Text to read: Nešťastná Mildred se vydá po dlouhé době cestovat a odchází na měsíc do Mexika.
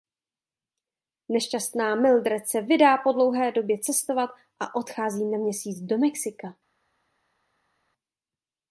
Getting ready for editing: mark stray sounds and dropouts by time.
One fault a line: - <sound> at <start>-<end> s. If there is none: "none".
none